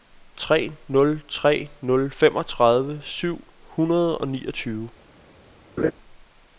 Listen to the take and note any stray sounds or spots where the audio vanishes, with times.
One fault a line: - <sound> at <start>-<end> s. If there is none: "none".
- laugh at 5.8-5.9 s